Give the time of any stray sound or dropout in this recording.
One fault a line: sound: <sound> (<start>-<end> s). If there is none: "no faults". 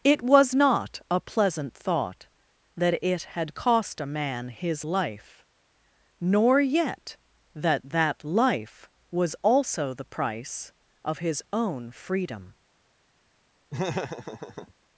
sound: laugh (13.7-14.7 s)